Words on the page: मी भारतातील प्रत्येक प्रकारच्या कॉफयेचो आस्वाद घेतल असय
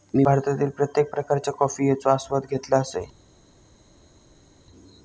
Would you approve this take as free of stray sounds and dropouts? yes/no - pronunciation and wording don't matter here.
yes